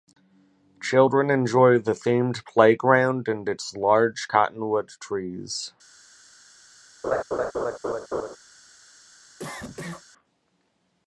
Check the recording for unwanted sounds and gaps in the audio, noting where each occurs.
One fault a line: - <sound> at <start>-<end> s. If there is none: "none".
- laugh at 7.0-8.4 s
- cough at 9.4-10.0 s